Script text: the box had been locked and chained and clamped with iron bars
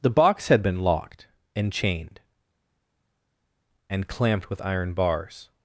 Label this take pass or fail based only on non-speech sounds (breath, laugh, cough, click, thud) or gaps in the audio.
pass